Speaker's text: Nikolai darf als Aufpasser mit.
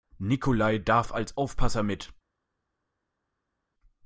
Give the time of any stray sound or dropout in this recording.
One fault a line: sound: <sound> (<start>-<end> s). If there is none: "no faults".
no faults